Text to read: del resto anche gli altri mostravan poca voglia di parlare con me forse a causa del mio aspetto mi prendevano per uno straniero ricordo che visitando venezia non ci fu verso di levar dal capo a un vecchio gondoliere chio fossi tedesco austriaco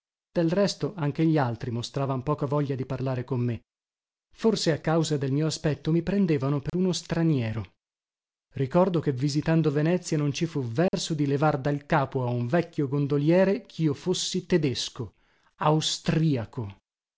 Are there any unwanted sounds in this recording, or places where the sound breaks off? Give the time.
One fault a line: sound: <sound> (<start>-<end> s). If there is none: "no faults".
sound: dropout (6.7-6.7 s)
sound: dropout (10.9-10.9 s)